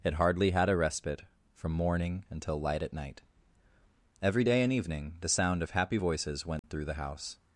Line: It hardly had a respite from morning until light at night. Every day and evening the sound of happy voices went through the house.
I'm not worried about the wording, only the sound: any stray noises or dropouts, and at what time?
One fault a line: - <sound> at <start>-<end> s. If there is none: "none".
- dropout at 6.6-6.6 s